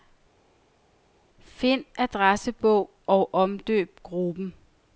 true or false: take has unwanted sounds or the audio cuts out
false